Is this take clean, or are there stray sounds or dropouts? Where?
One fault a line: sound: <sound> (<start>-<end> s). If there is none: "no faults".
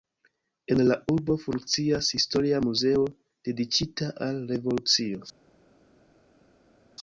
no faults